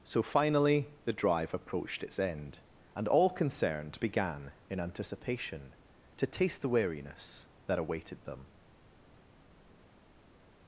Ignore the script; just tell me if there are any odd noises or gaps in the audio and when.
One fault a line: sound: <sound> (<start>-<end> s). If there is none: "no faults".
no faults